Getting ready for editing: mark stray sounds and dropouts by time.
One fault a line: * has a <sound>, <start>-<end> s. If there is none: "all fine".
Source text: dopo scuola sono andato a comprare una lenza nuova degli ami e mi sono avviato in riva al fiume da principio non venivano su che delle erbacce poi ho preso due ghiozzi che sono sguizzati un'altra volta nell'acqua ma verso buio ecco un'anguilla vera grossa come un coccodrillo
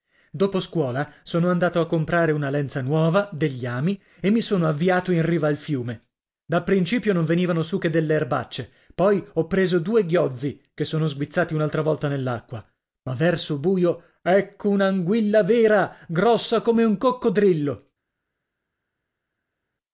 all fine